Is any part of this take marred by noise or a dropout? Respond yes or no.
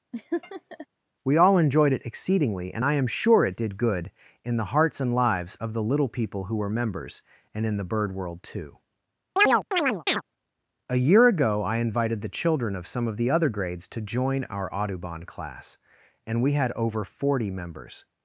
yes